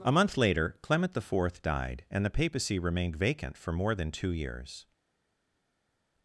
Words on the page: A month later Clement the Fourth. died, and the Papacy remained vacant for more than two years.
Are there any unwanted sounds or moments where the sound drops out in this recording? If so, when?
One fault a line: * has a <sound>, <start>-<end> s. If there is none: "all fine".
all fine